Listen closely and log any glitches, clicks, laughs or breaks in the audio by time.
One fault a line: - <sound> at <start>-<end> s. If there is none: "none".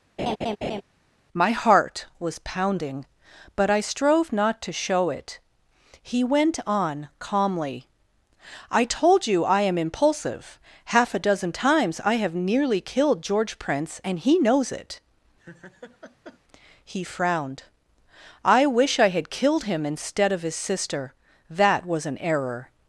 - laugh at 0.2-0.8 s
- laugh at 15.4-16.4 s